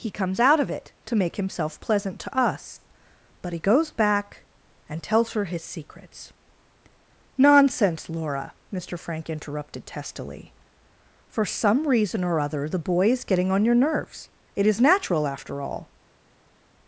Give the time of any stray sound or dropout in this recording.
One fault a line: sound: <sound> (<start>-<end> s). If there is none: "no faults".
no faults